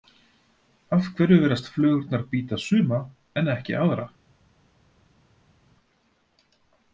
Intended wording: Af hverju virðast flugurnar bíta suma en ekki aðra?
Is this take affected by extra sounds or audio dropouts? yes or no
no